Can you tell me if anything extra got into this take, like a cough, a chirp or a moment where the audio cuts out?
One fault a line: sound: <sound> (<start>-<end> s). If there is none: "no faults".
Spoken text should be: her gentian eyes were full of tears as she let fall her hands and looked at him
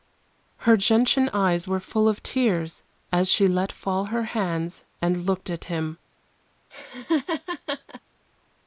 sound: laugh (6.7-8.0 s)